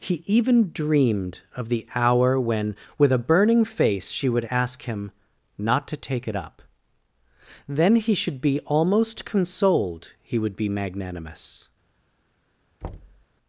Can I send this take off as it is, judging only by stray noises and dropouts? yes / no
no